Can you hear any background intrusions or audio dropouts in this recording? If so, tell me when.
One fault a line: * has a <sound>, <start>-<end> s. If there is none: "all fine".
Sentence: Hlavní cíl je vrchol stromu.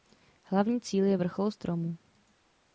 all fine